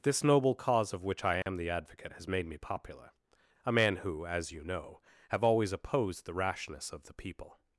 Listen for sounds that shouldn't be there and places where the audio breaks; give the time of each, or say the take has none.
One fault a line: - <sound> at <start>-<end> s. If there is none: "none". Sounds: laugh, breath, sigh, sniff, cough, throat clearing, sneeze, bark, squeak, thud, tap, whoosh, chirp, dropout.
- dropout at 1.4-1.5 s